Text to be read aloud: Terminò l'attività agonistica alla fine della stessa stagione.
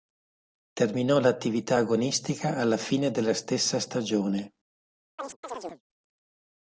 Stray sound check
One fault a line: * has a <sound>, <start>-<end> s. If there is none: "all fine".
* has a chirp, 5.2-5.8 s